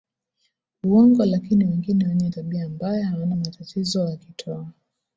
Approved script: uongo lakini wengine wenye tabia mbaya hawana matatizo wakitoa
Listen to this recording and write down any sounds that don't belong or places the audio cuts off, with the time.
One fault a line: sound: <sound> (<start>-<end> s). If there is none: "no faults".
no faults